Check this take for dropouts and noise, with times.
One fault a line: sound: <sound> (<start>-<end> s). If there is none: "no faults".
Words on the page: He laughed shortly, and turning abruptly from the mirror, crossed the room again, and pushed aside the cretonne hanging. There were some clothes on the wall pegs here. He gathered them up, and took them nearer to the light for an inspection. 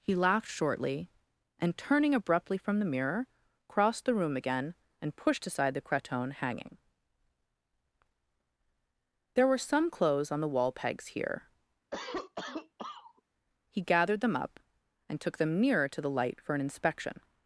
sound: cough (11.9-13.2 s)